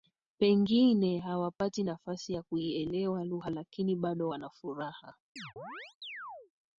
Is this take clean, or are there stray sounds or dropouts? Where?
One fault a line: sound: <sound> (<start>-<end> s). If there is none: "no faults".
sound: chirp (5.4-6.5 s)